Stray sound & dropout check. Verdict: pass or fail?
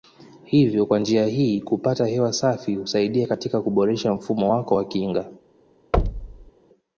fail